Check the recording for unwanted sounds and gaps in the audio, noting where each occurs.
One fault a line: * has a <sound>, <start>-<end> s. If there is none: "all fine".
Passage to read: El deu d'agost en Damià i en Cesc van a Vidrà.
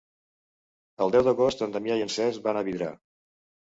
all fine